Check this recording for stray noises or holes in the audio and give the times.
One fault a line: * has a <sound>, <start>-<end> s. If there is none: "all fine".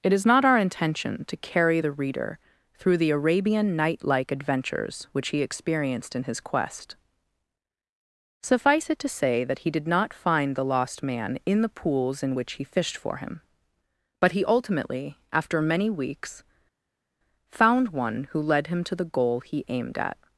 all fine